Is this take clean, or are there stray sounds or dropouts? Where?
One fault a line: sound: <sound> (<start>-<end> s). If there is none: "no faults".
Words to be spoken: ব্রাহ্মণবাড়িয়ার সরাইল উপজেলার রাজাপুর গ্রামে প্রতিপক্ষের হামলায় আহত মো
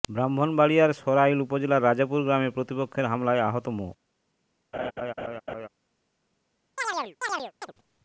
sound: laugh (4.7-5.7 s)
sound: chirp (6.8-7.7 s)